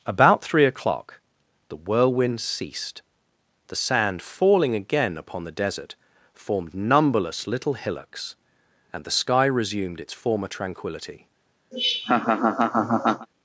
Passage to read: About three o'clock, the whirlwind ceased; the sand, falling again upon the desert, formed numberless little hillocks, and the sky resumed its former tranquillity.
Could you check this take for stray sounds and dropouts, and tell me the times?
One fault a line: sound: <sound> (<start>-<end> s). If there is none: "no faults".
sound: laugh (11.7-13.3 s)